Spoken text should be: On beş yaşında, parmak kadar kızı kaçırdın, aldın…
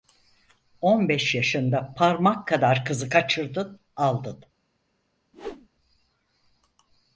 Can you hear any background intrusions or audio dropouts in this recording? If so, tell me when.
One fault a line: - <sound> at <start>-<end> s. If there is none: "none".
- whoosh at 5.3-5.7 s